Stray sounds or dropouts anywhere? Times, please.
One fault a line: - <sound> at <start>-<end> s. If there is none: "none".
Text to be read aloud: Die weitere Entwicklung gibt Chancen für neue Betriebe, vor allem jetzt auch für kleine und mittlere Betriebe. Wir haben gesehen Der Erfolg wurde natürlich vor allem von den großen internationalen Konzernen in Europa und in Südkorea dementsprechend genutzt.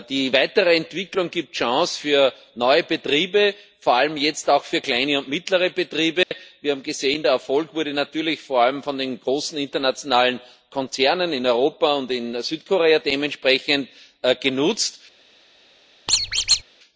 - dropout at 6.2-6.3 s
- squeak at 16.1-16.6 s